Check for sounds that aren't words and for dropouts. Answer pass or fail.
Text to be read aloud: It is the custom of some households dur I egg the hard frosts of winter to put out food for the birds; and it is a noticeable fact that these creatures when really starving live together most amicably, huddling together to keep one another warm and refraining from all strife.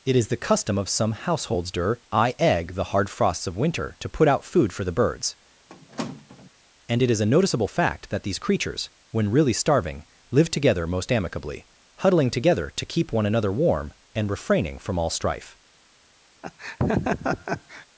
fail